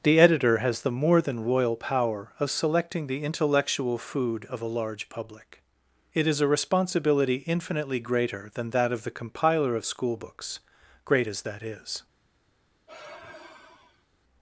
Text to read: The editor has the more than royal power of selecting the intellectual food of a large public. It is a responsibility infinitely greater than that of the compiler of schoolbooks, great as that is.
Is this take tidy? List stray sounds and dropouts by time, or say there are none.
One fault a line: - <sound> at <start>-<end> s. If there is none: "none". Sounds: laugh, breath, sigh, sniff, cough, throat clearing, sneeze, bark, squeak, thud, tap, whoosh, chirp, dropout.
- sigh at 12.9-14.0 s